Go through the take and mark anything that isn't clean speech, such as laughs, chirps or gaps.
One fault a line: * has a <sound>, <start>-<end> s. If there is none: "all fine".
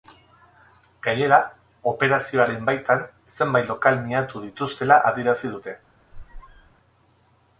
* has a squeak, 6.1-6.7 s